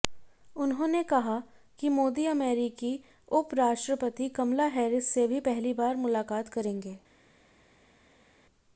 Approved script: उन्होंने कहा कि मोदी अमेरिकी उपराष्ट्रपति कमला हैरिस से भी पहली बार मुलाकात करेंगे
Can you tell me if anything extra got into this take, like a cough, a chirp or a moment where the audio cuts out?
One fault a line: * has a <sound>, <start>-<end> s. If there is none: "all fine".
all fine